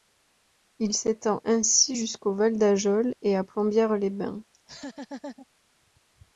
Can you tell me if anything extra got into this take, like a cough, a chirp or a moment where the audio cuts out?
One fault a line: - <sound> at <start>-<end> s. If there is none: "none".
- laugh at 4.5-5.5 s